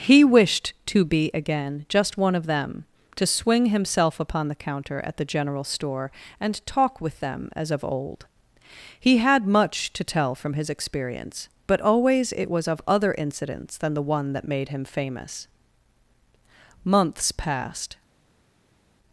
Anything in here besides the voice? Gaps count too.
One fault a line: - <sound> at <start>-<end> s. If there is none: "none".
none